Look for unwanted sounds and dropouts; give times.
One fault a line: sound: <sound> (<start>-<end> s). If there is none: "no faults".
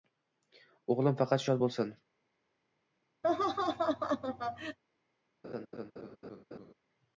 sound: laugh (3.2-4.8 s)
sound: laugh (5.4-6.7 s)